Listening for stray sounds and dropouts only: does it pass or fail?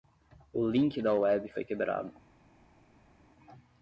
pass